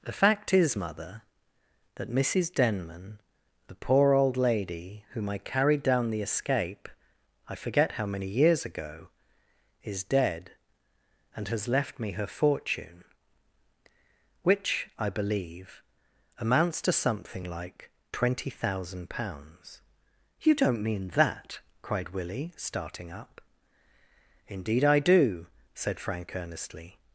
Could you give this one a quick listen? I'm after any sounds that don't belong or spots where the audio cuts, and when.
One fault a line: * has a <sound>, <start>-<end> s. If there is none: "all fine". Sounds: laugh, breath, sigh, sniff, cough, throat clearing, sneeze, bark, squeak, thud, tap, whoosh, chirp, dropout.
all fine